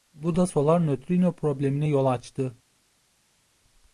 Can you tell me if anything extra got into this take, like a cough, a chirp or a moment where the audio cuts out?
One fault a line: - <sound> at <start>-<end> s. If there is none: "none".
none